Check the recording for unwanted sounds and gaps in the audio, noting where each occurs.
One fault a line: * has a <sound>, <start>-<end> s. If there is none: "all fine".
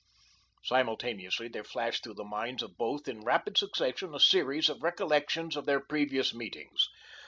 all fine